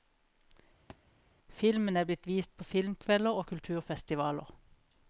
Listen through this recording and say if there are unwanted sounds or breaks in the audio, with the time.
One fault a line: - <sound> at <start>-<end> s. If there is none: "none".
- thud at 0.9-1.0 s